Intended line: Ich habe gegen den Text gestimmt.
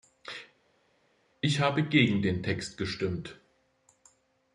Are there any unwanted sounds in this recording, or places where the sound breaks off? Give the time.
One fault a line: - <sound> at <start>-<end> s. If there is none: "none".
none